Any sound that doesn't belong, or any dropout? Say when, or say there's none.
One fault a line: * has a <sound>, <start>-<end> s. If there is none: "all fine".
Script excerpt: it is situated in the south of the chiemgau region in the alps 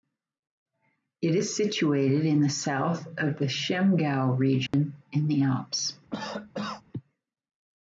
* has a dropout, 4.7-4.7 s
* has a cough, 6.1-6.8 s